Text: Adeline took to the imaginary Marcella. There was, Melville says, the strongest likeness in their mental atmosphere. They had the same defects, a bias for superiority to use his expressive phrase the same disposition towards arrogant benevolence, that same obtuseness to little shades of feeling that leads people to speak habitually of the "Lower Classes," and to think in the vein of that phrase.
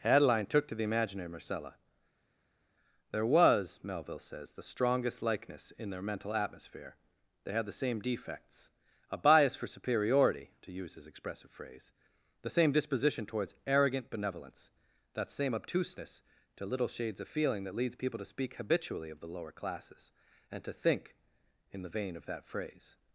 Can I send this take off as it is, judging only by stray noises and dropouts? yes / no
yes